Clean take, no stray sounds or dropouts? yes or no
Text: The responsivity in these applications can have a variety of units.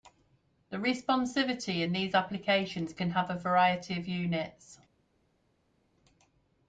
yes